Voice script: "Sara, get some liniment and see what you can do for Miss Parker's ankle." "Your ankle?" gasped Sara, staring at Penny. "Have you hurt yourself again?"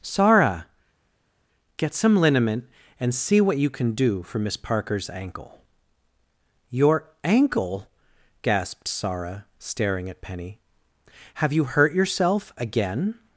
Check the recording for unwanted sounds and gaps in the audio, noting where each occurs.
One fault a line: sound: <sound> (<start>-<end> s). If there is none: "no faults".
no faults